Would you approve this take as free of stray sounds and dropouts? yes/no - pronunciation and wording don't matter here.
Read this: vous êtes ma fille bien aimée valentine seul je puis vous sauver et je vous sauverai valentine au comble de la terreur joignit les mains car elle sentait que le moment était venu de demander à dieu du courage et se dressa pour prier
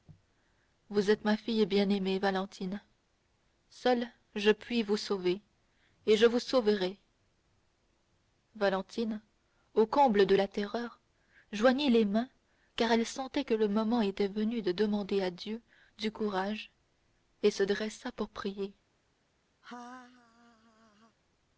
no